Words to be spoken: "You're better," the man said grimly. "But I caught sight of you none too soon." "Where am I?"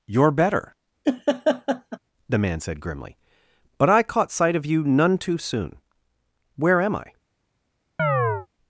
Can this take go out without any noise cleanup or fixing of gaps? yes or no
no